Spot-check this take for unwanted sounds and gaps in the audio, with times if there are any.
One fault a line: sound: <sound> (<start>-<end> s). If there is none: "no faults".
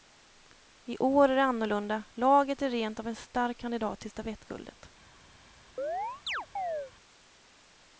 sound: chirp (5.8-6.9 s)